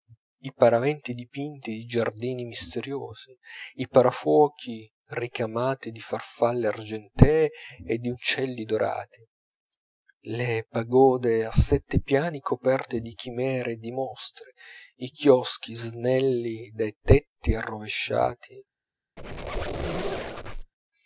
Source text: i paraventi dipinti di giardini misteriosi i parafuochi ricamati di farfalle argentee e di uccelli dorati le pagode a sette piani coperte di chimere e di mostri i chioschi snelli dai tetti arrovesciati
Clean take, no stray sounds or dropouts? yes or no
no